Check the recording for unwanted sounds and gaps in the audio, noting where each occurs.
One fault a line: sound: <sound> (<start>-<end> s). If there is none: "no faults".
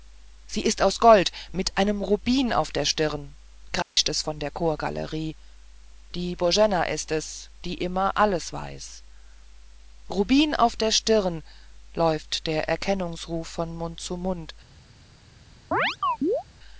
sound: dropout (3.8-4.0 s)
sound: chirp (15.7-16.4 s)